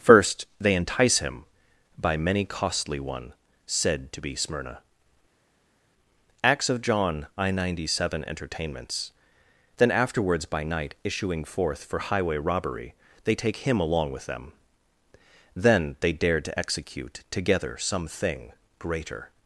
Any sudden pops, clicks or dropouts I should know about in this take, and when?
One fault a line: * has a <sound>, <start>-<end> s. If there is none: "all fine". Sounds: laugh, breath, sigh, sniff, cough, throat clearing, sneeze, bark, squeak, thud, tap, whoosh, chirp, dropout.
all fine